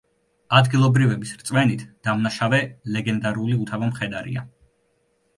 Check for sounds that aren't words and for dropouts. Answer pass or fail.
pass